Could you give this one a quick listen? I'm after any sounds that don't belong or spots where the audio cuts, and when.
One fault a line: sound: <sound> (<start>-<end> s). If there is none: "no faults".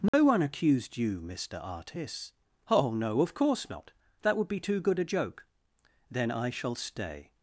sound: dropout (0.1-0.1 s)